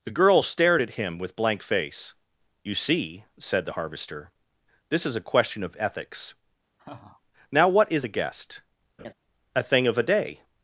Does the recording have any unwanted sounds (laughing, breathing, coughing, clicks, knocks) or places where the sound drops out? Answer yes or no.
yes